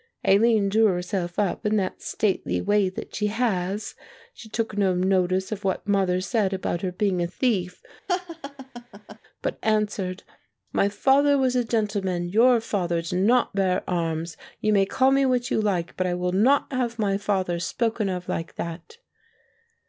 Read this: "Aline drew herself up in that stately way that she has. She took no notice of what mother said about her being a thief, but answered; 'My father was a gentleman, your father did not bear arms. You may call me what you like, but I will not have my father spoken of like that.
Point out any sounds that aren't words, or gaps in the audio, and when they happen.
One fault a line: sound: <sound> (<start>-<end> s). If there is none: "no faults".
sound: laugh (8.1-9.2 s)